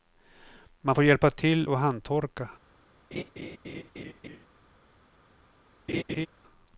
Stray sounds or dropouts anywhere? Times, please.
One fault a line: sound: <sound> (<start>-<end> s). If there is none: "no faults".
sound: laugh (3.1-4.5 s)
sound: laugh (5.9-6.3 s)